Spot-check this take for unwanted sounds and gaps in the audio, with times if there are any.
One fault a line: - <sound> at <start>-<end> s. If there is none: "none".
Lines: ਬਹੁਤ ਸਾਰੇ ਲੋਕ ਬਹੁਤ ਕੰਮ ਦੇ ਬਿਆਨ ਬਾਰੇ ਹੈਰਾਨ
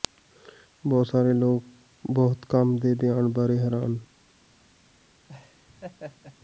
- laugh at 5.3-6.4 s